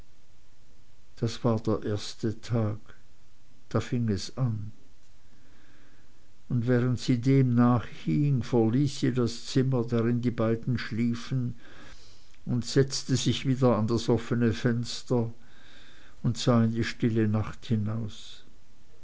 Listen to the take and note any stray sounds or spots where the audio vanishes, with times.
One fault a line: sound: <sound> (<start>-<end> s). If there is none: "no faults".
no faults